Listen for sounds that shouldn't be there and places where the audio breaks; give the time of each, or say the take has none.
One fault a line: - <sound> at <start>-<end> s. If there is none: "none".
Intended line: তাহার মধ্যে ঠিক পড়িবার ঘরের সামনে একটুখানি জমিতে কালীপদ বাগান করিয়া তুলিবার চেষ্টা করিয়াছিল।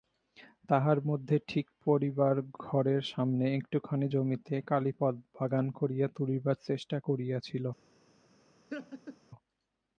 - laugh at 8.7-9.2 s